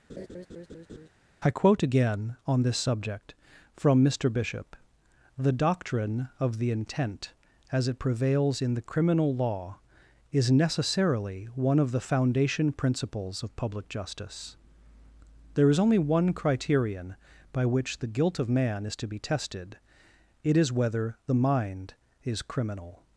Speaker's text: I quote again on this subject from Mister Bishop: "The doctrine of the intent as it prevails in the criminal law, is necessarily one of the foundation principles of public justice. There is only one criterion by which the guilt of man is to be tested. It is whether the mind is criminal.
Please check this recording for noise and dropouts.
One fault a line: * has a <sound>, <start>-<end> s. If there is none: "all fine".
* has a laugh, 0.1-1.1 s